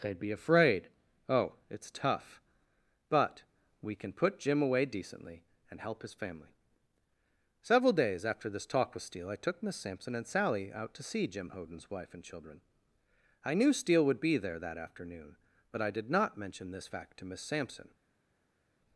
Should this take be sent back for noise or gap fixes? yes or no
no